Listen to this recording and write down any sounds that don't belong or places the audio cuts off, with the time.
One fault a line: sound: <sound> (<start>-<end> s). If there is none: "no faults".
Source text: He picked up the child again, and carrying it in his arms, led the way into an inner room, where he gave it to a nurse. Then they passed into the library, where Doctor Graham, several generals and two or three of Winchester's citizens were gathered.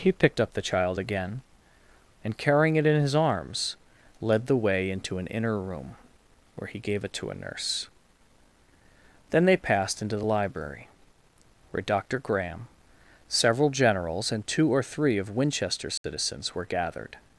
sound: dropout (16.0-16.0 s)